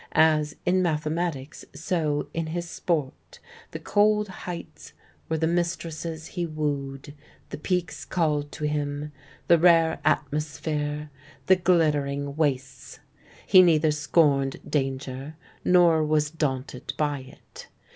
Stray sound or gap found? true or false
false